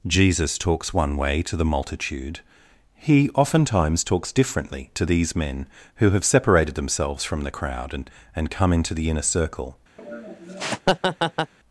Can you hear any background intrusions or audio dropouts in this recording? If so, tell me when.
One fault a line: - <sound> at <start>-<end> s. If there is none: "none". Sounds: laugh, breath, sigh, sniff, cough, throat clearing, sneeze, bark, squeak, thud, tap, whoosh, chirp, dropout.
- laugh at 10.0-11.5 s